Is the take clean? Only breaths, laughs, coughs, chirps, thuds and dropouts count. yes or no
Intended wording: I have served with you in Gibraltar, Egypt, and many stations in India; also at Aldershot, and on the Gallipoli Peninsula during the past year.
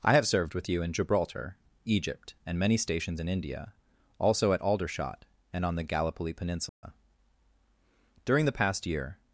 no